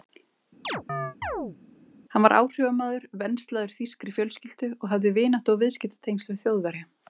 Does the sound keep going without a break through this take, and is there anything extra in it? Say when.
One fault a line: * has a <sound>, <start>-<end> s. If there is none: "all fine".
* has a chirp, 0.6-1.6 s